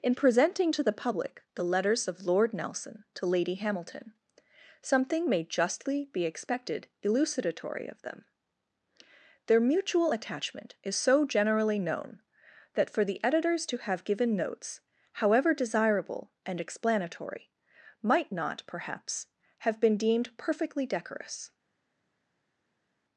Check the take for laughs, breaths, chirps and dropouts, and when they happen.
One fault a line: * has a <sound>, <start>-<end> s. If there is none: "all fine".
all fine